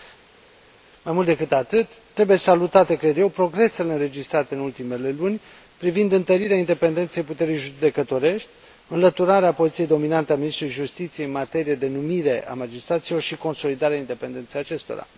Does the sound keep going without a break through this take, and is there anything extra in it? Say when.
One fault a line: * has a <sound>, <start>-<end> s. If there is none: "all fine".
all fine